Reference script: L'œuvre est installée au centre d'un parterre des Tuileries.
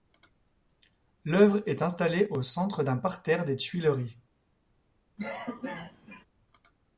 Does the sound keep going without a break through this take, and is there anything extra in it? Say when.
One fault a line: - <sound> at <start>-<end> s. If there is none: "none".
- cough at 5.2-6.3 s